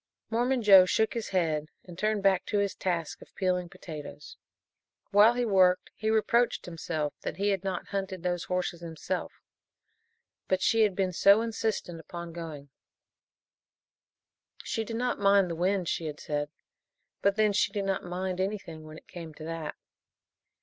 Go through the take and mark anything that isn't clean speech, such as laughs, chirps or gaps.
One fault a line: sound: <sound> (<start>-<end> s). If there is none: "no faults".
no faults